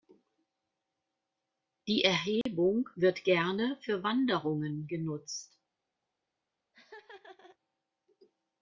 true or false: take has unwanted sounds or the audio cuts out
true